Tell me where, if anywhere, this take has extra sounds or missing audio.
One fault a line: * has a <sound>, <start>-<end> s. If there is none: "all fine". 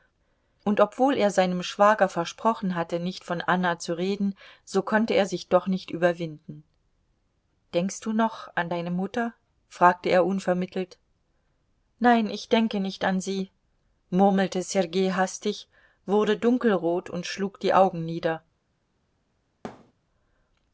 * has a thud, 19.6-19.9 s